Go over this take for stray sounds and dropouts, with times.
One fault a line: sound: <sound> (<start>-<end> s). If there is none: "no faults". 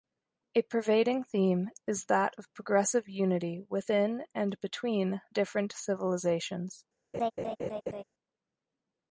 sound: laugh (7.1-8.0 s)